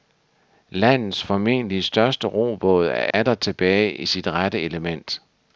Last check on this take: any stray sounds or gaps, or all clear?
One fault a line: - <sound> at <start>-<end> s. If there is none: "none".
- dropout at 3.1-3.1 s